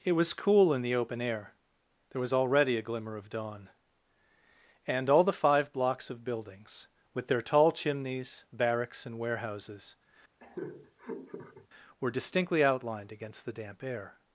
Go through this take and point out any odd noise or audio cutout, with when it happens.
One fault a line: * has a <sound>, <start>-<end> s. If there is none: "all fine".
* has a laugh, 10.4-11.7 s